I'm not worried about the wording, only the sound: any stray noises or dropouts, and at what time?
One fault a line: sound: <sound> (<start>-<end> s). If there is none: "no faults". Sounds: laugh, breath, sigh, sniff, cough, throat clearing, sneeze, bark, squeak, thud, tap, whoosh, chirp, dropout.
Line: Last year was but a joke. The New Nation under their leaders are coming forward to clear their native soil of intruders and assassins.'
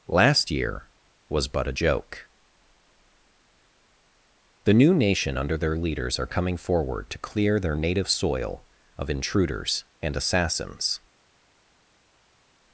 no faults